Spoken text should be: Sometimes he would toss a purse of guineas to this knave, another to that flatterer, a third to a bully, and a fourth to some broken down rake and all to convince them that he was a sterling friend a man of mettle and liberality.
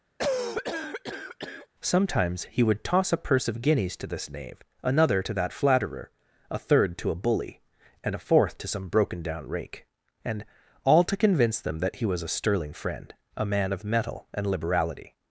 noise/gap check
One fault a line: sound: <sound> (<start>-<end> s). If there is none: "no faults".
sound: cough (0.2-1.7 s)